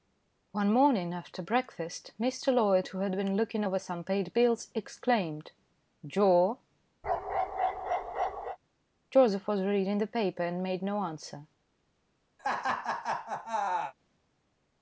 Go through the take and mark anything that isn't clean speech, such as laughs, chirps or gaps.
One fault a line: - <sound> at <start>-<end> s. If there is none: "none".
- bark at 7.0-8.6 s
- laugh at 12.4-13.9 s